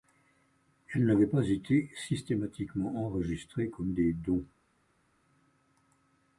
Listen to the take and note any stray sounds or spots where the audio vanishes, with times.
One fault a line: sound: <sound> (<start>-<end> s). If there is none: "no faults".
no faults